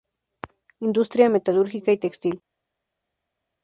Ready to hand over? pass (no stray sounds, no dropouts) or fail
pass